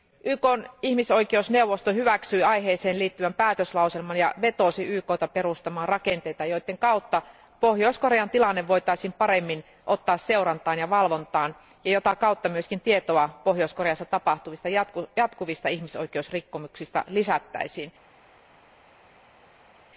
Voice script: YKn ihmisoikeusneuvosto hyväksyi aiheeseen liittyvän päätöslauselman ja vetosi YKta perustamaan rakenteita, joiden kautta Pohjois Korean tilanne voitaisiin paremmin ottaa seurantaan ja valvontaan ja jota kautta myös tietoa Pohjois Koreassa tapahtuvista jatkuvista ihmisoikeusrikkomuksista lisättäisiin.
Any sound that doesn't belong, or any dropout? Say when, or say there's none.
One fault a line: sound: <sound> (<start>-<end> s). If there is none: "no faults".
no faults